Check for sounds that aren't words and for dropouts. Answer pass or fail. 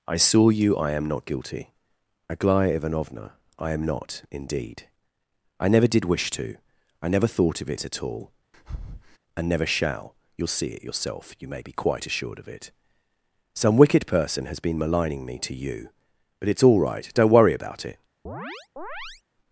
fail